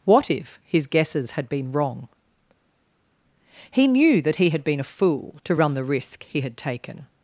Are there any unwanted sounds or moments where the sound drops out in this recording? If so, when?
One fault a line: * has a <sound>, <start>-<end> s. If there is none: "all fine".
all fine